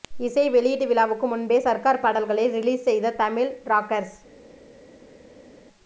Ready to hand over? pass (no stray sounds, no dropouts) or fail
pass